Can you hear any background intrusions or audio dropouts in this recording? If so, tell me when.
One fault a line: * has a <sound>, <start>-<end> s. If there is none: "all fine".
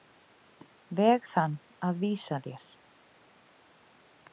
all fine